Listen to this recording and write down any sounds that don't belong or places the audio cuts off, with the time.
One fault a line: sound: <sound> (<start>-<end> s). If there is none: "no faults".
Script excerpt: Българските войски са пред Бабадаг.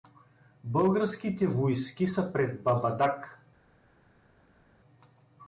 no faults